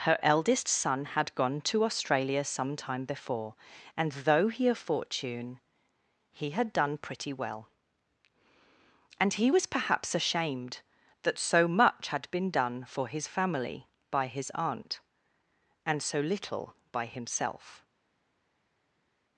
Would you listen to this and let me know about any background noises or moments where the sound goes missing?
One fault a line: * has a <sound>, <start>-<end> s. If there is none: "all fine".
all fine